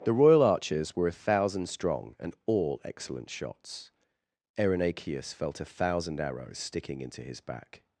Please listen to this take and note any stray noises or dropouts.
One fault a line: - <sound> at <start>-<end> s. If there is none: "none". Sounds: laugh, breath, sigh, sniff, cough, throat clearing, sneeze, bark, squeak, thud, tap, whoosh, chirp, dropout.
none